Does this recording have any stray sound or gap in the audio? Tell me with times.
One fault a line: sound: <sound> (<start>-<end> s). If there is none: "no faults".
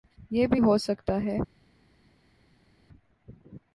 no faults